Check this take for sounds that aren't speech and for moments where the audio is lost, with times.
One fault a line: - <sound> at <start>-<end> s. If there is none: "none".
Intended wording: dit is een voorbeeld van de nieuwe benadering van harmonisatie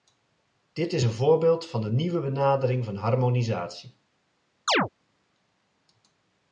- chirp at 4.7-4.9 s